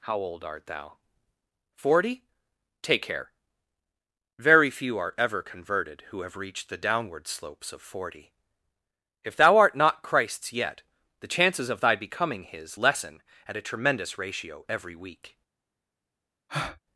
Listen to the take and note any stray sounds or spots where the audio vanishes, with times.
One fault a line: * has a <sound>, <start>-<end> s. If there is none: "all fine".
* has a breath, 16.5-16.8 s